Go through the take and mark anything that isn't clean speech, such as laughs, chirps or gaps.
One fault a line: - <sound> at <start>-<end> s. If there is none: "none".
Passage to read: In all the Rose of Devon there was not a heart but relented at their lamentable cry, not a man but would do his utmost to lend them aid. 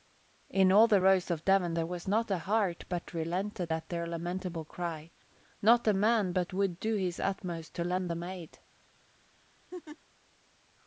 - laugh at 9.7-10.0 s